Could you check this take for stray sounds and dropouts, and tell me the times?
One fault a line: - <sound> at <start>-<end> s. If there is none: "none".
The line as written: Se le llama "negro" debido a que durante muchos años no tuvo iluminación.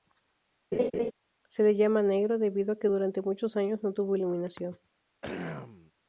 - laugh at 0.7-1.1 s
- throat clearing at 5.2-5.9 s